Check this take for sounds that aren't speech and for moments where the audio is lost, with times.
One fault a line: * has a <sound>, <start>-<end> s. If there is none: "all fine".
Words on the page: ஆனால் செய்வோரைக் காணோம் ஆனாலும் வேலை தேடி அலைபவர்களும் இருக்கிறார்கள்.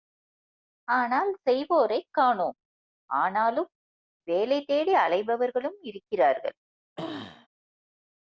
* has a throat clearing, 7.0-7.5 s